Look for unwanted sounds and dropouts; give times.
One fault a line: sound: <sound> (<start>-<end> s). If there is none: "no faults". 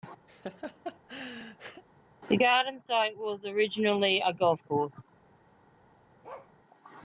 sound: laugh (0.3-1.8 s)
sound: bark (6.2-6.5 s)